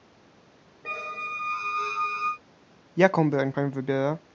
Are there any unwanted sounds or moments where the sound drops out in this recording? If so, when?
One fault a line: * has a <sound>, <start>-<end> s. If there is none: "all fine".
* has a squeak, 0.8-2.4 s